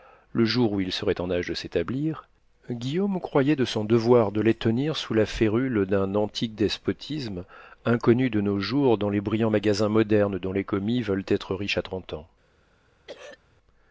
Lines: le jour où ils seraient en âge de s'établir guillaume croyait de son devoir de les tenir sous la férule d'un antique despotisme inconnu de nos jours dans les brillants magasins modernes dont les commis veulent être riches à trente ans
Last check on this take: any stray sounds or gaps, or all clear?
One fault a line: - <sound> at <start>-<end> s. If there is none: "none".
- throat clearing at 13.1-13.4 s